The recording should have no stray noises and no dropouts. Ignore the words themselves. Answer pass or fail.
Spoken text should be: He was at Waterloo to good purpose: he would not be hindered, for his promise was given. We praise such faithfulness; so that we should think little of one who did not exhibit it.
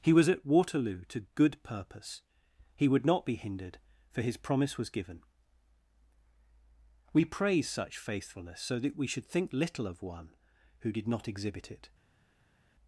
pass